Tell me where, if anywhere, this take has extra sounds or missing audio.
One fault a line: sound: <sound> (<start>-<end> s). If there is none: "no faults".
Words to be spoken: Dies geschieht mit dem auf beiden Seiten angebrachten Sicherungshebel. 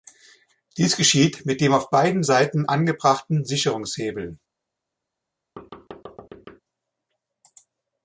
sound: thud (5.6-6.6 s)